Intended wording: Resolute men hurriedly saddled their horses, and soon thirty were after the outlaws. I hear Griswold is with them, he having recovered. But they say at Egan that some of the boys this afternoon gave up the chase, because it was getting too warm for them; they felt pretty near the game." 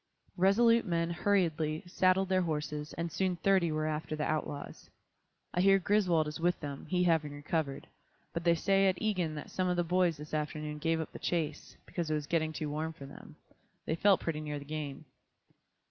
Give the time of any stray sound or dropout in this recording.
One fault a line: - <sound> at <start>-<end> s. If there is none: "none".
none